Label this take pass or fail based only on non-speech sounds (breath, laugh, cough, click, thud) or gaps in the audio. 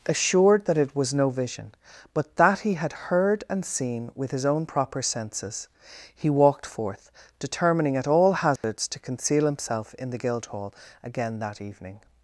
fail